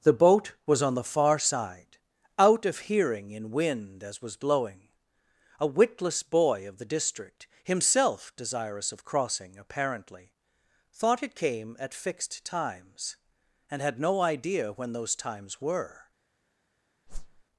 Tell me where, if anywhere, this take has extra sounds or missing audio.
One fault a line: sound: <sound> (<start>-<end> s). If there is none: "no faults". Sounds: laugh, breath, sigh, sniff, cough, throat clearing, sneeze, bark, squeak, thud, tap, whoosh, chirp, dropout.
sound: whoosh (17.1-17.4 s)